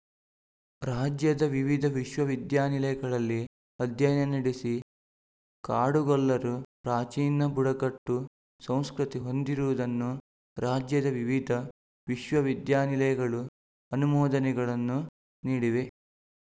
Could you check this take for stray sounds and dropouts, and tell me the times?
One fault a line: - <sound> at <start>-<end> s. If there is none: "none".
none